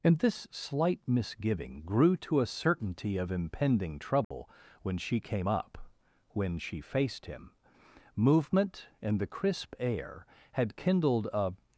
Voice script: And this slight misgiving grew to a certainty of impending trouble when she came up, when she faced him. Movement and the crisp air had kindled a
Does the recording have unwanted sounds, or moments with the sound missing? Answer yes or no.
yes